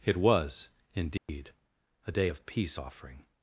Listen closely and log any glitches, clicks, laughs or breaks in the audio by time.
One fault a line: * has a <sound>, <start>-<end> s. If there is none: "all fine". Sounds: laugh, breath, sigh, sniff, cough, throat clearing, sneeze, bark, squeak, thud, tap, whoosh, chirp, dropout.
* has a dropout, 1.2-1.3 s